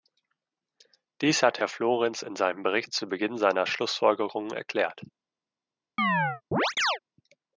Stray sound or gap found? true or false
true